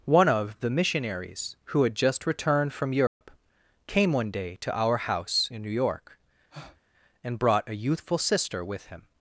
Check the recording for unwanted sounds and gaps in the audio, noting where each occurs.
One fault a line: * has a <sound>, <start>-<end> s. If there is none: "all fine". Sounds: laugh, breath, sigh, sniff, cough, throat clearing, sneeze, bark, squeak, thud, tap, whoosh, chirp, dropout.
* has a dropout, 3.1-3.2 s
* has a breath, 6.5-6.8 s